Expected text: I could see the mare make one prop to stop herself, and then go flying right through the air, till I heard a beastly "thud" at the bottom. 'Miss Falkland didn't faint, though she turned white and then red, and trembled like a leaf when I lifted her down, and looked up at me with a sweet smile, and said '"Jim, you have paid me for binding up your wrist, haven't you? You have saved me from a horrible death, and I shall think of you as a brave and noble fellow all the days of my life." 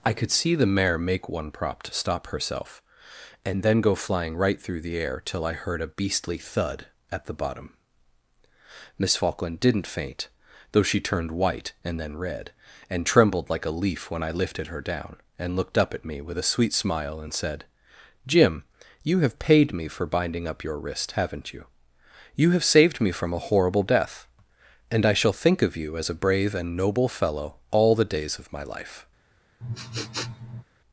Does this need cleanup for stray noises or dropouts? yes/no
yes